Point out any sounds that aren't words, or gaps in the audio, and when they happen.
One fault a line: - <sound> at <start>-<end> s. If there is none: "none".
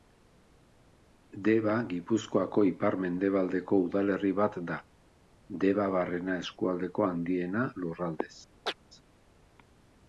- chirp at 8.7-8.8 s